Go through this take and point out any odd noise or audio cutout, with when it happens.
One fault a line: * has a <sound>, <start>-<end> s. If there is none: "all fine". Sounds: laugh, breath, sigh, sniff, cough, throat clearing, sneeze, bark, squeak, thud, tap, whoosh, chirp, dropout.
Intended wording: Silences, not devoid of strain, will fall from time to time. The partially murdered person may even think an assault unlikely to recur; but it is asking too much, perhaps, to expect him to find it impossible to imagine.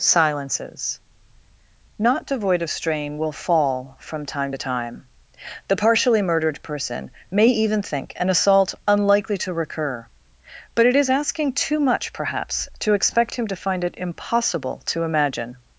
all fine